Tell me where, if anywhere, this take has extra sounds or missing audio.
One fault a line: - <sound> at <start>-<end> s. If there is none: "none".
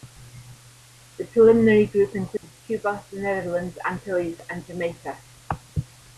- dropout at 2.4-2.4 s